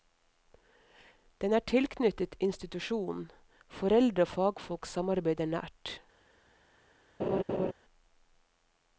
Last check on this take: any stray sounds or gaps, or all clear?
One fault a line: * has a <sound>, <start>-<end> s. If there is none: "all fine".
* has a laugh, 7.2-7.7 s